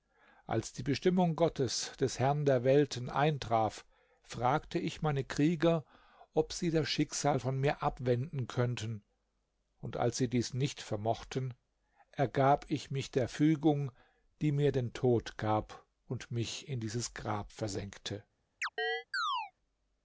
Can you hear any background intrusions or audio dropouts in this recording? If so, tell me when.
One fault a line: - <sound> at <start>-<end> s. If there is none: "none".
- chirp at 18.6-19.5 s